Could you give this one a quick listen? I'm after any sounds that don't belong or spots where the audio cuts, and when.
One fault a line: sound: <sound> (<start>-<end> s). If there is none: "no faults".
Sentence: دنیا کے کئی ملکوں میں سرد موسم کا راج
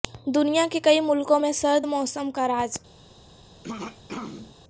sound: throat clearing (3.6-4.6 s)